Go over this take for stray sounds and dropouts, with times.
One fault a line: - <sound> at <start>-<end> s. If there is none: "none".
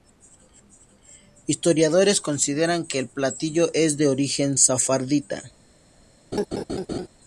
- laugh at 6.3-7.1 s